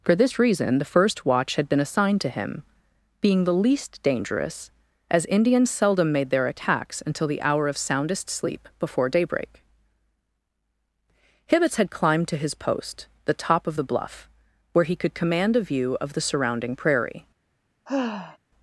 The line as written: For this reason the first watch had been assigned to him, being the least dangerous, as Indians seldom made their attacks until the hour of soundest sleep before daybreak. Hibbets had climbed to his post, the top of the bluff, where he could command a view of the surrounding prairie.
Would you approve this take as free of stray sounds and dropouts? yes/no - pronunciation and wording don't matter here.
no